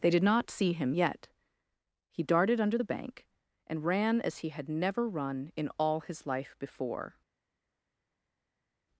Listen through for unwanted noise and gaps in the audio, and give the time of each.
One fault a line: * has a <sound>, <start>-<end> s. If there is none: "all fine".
all fine